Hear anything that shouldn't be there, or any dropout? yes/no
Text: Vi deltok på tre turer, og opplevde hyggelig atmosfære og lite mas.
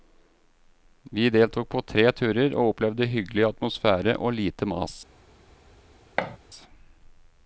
yes